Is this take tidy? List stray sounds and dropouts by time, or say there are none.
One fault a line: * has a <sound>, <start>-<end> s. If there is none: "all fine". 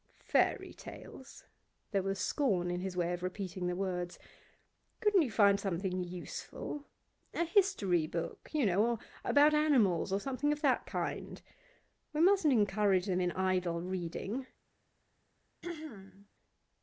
* has a throat clearing, 15.6-16.3 s